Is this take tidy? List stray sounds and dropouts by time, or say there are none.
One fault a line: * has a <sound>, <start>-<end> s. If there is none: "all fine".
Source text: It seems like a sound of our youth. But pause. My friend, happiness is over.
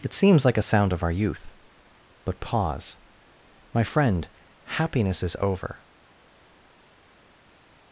all fine